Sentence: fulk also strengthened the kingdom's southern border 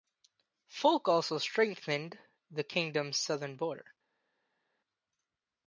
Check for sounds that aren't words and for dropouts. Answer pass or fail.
pass